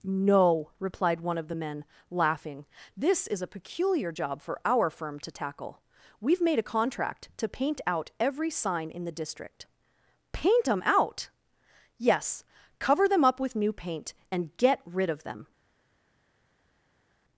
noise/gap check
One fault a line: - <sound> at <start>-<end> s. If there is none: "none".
none